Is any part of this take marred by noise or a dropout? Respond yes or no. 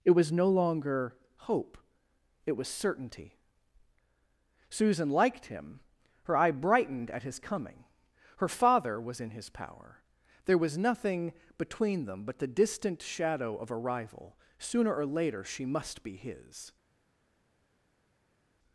no